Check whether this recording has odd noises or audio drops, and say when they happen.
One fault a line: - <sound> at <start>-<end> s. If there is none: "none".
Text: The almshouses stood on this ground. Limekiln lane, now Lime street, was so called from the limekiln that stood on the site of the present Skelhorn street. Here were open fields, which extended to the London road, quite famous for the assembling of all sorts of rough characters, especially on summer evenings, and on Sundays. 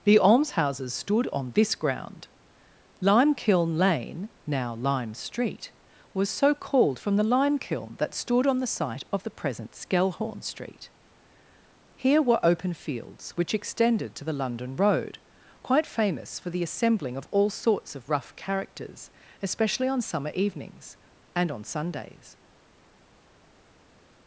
none